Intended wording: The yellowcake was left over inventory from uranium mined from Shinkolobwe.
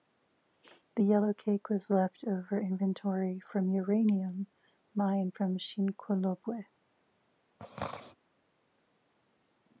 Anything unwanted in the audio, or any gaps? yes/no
yes